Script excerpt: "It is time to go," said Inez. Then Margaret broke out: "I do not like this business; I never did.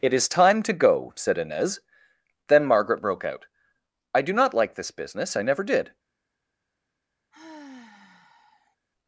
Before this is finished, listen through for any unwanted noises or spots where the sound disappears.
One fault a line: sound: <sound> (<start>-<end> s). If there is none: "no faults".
sound: sigh (7.3-8.8 s)